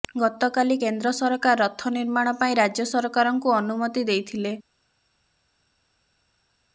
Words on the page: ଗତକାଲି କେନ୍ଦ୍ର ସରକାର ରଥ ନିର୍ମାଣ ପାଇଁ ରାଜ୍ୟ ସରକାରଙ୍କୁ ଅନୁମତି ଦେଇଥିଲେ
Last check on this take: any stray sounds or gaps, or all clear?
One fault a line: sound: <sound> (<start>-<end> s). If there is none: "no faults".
no faults